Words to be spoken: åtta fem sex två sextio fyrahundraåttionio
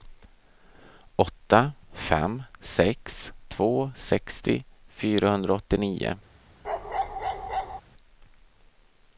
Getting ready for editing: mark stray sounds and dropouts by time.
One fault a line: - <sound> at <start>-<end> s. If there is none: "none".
- bark at 6.6-7.8 s